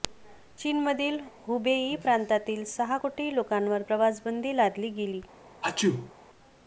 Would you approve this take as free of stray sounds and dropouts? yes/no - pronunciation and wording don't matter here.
no